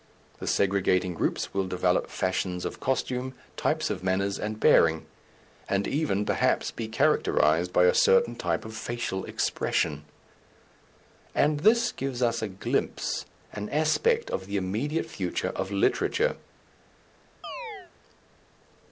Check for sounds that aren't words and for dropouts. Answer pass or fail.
fail